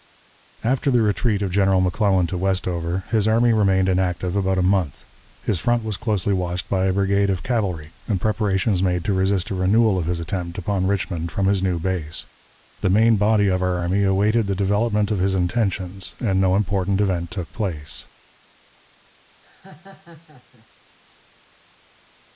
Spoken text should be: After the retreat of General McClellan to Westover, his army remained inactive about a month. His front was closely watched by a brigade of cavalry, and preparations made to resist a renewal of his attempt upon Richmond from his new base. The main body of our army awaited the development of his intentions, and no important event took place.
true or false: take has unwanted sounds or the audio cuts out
true